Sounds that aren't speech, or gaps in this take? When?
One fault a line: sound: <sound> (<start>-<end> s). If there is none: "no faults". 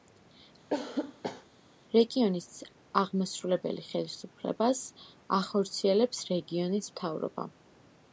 sound: cough (0.7-1.5 s)